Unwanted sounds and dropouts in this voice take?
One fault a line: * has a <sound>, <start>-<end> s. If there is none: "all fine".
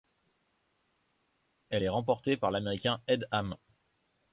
all fine